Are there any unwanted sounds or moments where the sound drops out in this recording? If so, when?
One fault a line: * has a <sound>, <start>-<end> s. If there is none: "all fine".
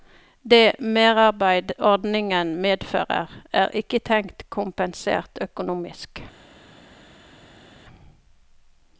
all fine